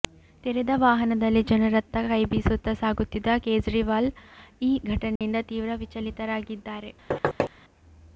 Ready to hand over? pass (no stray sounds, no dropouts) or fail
fail